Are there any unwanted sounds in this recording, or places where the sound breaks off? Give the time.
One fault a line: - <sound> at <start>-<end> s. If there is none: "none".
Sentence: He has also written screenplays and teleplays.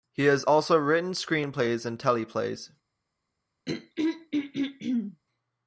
- throat clearing at 3.7-5.2 s